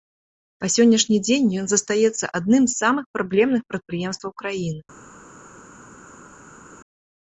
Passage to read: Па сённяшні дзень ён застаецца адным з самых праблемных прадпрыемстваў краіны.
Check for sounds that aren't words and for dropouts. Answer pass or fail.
pass